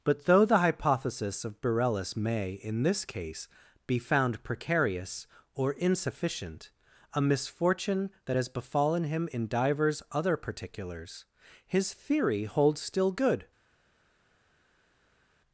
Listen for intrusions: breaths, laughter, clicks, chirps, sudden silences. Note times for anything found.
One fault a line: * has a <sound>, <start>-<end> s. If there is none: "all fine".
all fine